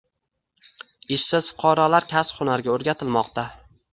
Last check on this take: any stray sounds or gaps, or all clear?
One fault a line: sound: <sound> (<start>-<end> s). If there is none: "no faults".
no faults